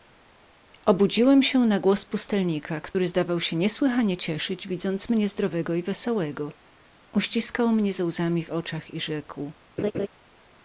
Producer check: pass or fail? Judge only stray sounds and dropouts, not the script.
fail